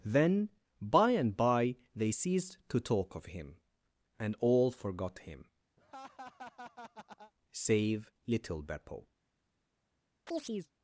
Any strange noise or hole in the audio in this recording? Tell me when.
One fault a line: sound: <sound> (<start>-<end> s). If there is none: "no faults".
sound: laugh (5.8-7.3 s)
sound: chirp (10.3-10.7 s)